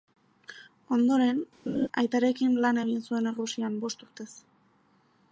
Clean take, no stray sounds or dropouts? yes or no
no